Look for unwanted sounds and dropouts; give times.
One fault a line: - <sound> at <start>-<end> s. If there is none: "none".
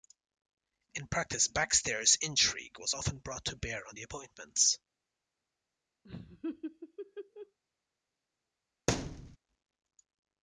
- laugh at 6.0-7.6 s
- thud at 8.9-9.4 s